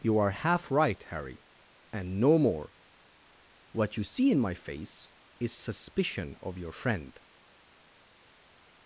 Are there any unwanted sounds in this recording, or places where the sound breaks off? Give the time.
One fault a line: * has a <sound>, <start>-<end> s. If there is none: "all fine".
all fine